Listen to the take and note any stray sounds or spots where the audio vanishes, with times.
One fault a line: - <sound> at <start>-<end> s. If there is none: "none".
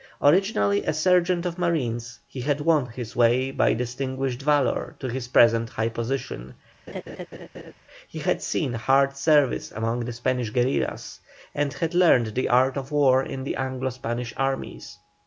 - laugh at 6.9-7.7 s